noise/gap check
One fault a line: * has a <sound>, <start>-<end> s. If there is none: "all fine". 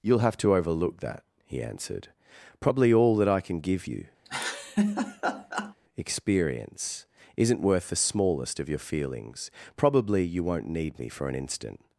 * has a laugh, 4.2-5.7 s